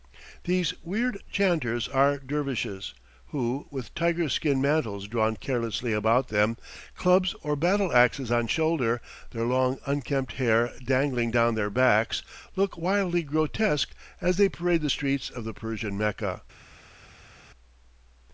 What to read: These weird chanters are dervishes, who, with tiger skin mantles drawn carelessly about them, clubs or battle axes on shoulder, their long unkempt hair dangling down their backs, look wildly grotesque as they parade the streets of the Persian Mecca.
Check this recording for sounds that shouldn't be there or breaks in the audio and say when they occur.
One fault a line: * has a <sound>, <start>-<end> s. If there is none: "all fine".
all fine